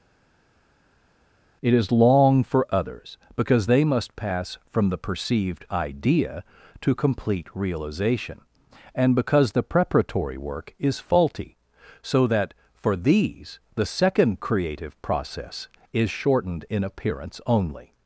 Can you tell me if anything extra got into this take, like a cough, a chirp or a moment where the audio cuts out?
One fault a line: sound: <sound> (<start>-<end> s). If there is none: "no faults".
no faults